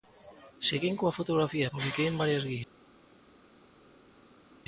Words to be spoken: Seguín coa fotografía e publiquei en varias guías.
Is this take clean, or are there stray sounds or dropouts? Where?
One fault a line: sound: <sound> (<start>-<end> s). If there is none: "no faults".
no faults